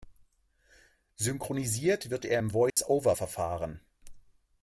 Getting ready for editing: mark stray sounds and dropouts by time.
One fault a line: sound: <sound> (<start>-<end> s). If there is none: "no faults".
sound: dropout (2.7-2.8 s)